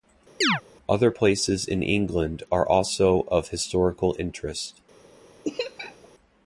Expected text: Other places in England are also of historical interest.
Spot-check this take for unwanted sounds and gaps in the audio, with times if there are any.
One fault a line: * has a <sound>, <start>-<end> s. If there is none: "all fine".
* has a chirp, 0.4-0.6 s
* has a laugh, 5.4-6.1 s